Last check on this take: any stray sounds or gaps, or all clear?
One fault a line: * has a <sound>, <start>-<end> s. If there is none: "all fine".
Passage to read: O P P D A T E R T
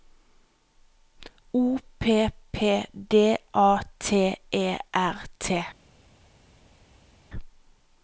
all fine